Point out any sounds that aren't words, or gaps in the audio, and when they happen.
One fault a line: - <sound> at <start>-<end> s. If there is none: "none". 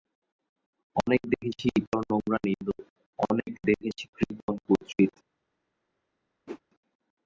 - whoosh at 6.5-6.6 s